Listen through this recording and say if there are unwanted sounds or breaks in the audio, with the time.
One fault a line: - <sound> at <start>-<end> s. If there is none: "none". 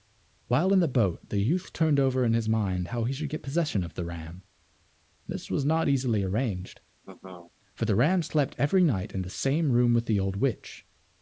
- laugh at 7.0-7.5 s